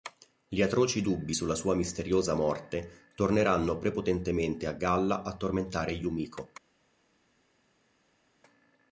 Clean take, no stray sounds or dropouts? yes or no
yes